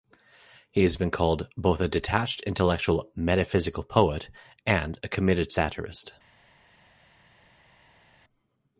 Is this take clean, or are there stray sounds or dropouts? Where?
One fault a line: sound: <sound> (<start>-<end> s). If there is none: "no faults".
no faults